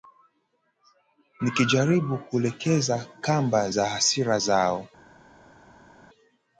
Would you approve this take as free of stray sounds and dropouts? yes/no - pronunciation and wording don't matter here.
yes